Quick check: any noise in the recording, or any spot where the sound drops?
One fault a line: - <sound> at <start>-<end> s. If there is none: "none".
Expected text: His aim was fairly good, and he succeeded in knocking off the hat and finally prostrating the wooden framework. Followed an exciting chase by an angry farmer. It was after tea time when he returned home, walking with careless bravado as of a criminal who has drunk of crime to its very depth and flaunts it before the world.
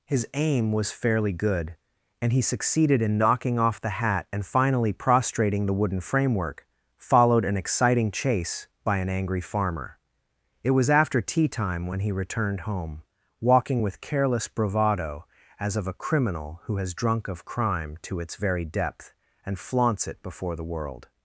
none